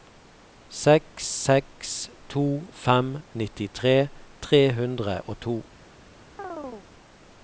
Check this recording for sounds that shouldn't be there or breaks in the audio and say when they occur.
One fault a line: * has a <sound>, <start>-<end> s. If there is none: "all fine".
* has a chirp, 6.4-6.9 s